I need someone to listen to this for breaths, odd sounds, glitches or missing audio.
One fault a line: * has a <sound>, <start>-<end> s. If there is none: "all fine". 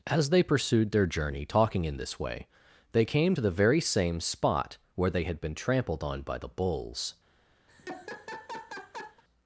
* has a laugh, 7.7-9.2 s